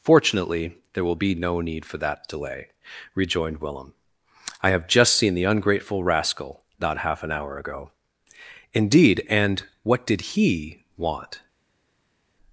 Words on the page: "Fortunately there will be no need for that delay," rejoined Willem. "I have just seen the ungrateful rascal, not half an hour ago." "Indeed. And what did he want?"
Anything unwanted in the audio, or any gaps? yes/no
no